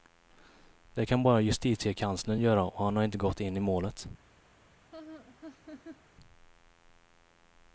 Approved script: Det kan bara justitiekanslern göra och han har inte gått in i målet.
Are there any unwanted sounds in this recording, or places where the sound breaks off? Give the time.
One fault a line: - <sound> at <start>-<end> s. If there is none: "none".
- laugh at 4.9-6.0 s